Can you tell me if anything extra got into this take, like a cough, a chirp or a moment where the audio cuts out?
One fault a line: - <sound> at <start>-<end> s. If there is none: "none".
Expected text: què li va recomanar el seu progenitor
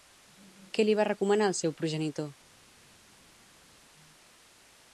none